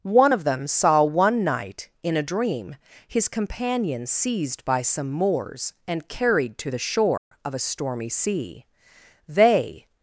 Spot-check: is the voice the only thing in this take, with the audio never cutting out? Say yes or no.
no